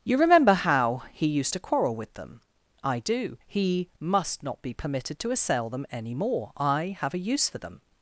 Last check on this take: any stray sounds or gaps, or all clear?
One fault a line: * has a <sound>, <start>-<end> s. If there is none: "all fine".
all fine